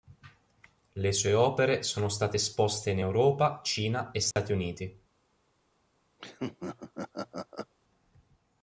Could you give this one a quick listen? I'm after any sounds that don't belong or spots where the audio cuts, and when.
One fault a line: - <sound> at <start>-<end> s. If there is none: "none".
- dropout at 4.3-4.4 s
- laugh at 6.2-7.7 s